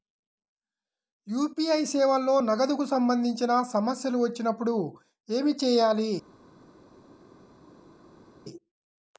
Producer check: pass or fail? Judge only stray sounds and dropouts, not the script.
pass